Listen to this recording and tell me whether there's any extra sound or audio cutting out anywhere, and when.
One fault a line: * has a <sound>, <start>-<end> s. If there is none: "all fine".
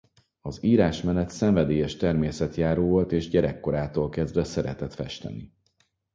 all fine